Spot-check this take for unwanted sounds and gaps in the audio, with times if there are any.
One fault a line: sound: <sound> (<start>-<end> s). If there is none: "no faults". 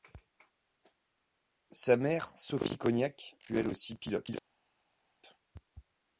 no faults